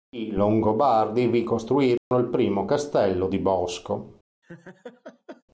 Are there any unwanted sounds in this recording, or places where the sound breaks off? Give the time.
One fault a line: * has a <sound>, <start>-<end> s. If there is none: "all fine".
* has a dropout, 2.0-2.1 s
* has a laugh, 4.4-5.4 s